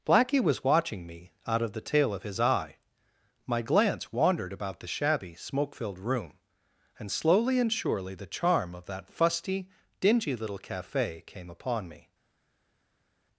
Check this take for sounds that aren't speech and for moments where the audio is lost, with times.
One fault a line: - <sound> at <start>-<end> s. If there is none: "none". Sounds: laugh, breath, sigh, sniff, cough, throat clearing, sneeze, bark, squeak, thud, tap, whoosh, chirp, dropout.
none